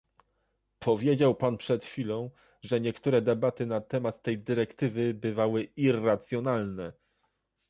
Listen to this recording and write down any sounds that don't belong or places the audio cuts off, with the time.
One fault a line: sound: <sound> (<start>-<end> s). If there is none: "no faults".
no faults